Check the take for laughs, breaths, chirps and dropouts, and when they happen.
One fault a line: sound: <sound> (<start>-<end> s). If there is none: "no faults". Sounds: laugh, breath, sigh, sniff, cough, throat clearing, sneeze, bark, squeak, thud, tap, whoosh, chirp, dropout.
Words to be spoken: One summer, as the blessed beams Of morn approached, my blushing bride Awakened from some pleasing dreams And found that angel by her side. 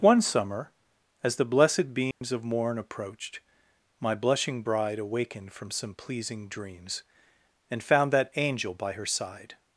sound: dropout (2.1-2.2 s)